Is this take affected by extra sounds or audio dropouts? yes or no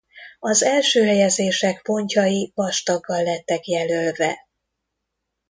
no